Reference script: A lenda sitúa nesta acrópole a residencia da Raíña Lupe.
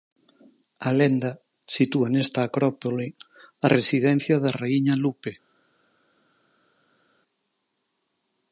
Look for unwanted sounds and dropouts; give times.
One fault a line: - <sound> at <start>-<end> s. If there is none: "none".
none